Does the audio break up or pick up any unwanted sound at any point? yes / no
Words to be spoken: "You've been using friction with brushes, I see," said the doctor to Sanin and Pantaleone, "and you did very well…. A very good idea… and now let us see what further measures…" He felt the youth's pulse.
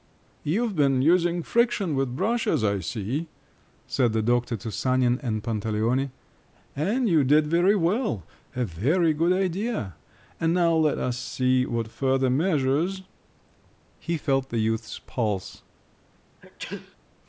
yes